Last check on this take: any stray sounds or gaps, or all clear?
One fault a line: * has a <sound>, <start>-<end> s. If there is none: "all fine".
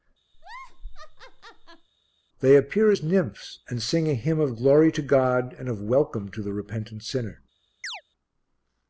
* has a laugh, 0.3-1.9 s
* has a chirp, 7.8-8.0 s